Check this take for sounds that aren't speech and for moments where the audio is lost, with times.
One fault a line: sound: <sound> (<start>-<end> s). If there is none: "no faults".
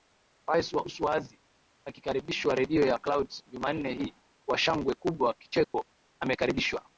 sound: dropout (5.6-5.7 s)